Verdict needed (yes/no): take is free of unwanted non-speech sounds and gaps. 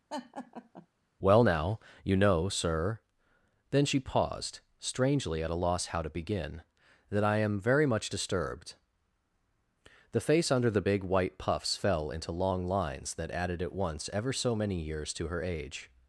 no